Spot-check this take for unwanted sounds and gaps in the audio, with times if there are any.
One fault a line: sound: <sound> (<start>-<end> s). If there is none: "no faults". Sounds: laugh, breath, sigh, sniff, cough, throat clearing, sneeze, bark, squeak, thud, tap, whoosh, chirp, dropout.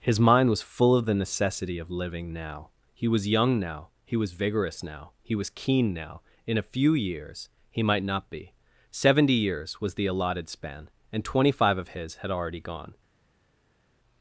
no faults